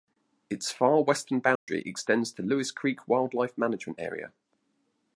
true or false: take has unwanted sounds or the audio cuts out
true